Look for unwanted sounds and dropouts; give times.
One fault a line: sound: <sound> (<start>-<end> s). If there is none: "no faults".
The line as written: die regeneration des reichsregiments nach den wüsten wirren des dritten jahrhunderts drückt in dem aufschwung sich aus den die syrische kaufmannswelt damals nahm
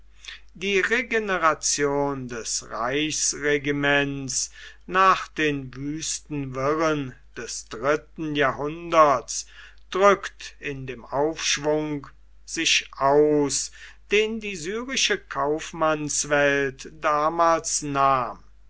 no faults